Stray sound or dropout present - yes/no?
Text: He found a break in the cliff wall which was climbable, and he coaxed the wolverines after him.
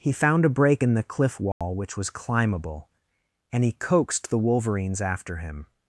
yes